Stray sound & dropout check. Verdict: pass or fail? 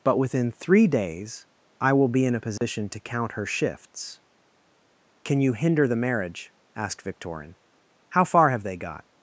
fail